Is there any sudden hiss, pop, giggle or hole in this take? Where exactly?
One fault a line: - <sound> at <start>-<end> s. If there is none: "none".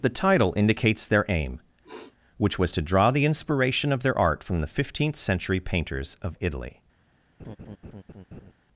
- sniff at 1.8-2.2 s
- laugh at 7.4-8.5 s